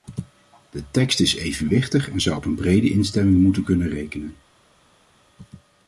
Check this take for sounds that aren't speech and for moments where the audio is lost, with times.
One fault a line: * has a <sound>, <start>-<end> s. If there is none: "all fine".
all fine